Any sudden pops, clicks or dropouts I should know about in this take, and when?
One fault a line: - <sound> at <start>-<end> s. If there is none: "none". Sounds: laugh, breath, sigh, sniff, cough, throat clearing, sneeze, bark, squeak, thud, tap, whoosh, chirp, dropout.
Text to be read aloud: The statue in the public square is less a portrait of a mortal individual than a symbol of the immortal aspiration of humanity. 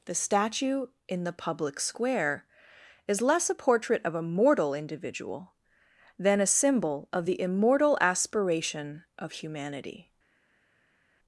none